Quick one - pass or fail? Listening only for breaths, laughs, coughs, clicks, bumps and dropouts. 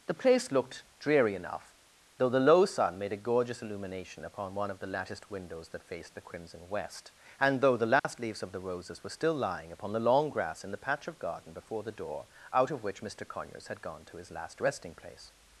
fail